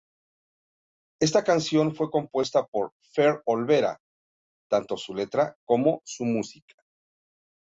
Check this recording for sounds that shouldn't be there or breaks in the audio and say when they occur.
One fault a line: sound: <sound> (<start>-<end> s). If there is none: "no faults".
no faults